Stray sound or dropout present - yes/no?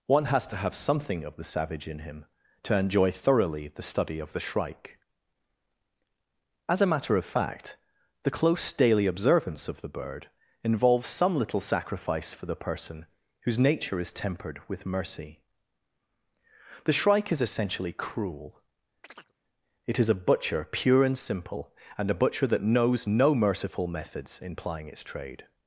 yes